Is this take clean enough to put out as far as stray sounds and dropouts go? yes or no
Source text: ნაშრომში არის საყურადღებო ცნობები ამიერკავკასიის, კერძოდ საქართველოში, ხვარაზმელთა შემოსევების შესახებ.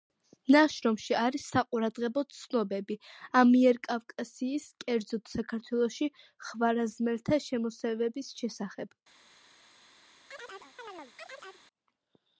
no